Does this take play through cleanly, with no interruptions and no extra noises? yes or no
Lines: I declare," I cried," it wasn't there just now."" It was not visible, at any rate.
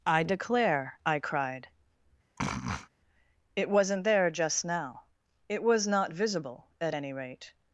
no